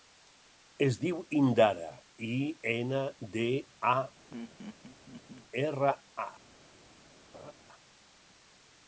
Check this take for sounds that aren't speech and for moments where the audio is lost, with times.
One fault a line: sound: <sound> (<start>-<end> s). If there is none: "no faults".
sound: laugh (4.3-5.4 s)
sound: laugh (7.3-7.5 s)